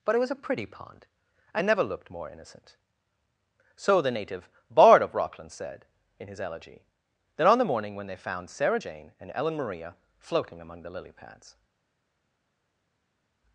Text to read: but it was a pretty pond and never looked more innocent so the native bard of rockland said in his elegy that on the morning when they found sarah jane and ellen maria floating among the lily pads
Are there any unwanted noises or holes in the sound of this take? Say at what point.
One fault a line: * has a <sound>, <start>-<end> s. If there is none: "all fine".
all fine